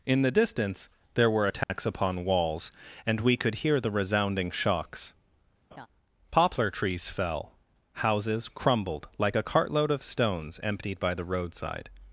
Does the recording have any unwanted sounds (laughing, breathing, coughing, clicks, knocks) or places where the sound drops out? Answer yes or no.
yes